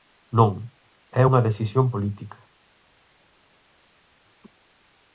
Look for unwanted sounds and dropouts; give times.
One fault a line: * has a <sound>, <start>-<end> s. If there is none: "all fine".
all fine